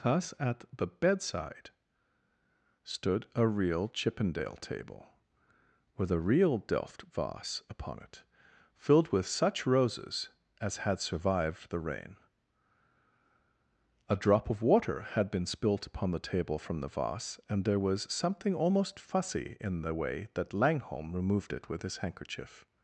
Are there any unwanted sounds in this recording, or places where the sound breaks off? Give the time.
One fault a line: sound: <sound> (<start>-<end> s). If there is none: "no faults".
no faults